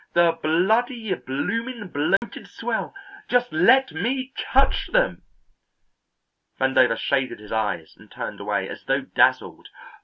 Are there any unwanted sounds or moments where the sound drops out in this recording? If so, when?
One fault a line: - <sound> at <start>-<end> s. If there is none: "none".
- dropout at 2.2-2.2 s